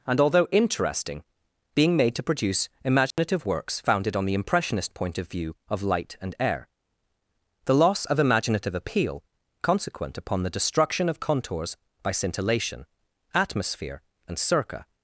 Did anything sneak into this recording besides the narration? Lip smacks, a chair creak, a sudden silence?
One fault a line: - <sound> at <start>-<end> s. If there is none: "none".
- dropout at 3.1-3.2 s